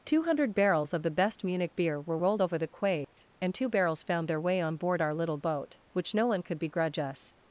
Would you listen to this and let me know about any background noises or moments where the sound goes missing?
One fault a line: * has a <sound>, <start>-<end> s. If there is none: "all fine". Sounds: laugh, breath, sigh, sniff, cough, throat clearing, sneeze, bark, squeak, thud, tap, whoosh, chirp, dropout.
* has a dropout, 3.0-3.2 s